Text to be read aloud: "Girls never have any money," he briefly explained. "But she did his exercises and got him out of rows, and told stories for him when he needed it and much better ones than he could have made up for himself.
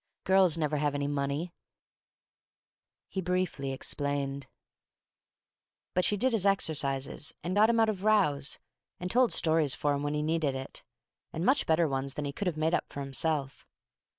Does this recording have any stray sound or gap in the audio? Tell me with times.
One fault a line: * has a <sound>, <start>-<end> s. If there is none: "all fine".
all fine